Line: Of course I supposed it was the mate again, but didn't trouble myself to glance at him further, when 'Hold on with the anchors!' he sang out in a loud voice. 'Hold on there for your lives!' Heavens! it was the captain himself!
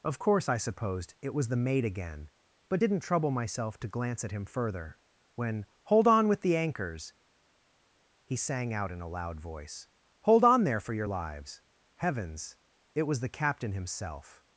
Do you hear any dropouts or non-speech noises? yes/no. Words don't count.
no